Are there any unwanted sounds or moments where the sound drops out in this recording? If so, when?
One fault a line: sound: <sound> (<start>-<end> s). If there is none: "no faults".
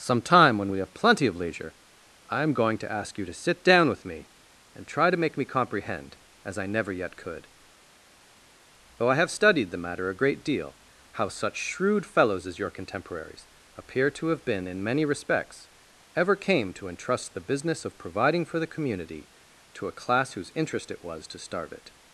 no faults